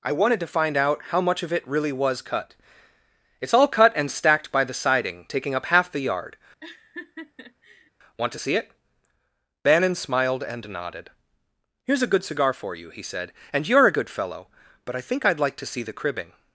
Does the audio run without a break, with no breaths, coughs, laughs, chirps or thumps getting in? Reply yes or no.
no